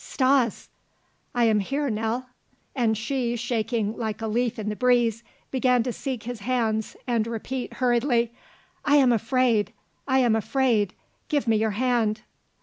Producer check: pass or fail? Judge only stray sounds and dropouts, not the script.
pass